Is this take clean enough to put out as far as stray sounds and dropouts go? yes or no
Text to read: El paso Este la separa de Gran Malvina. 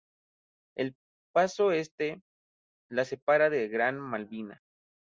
yes